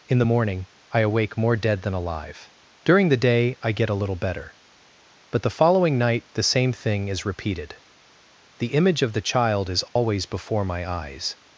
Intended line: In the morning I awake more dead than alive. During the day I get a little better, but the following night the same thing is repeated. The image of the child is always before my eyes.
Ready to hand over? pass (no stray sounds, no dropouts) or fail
fail